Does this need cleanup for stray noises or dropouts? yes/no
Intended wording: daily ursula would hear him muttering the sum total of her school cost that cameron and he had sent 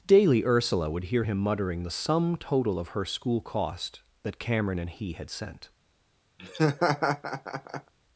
yes